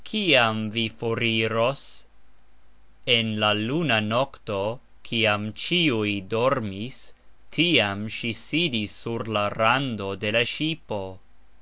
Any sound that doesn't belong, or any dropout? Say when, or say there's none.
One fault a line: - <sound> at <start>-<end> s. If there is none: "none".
none